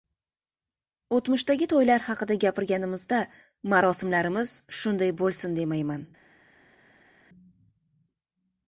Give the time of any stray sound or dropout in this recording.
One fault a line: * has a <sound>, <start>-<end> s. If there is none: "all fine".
all fine